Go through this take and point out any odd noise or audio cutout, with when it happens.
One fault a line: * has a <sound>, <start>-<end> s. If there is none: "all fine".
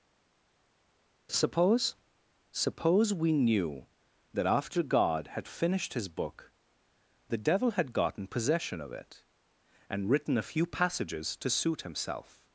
all fine